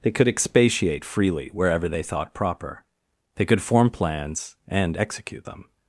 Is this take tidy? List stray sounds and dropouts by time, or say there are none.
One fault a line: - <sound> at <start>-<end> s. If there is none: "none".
none